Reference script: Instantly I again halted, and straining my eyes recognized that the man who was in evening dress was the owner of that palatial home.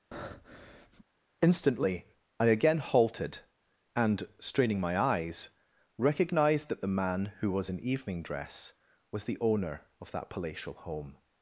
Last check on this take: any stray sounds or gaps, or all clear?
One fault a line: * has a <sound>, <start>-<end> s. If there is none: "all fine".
* has a breath, 0.1-1.0 s